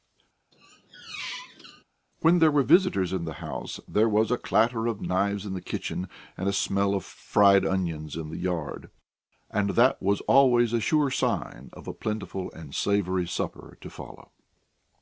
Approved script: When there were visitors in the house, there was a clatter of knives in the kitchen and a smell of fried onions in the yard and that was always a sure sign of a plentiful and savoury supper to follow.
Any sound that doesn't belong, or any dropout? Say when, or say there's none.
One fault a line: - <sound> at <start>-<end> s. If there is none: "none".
- squeak at 0.5-1.8 s